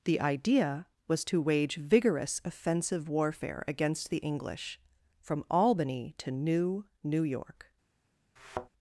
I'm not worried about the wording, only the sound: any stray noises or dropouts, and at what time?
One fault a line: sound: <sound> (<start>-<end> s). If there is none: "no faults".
sound: thud (8.4-8.7 s)